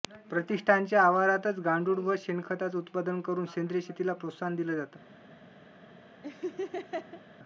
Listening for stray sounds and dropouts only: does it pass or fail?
fail